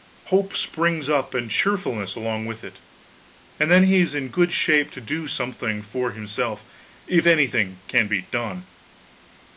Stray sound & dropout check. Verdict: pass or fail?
pass